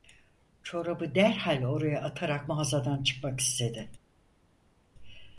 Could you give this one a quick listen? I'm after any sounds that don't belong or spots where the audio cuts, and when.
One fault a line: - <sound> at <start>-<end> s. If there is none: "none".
none